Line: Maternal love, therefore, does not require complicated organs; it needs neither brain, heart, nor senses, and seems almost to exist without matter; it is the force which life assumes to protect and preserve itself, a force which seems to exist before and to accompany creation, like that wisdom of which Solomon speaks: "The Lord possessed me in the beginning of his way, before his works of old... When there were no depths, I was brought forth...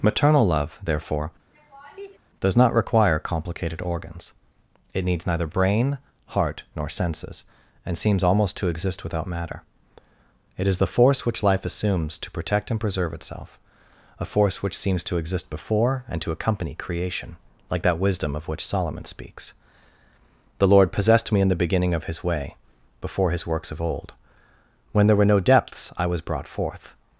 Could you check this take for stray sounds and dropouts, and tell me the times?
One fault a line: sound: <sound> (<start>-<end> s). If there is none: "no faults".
sound: laugh (1.5-2.2 s)